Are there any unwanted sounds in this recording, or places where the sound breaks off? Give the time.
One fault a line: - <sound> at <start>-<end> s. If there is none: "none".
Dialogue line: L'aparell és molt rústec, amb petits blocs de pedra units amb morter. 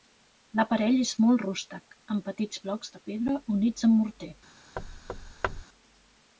- thud at 4.8-5.6 s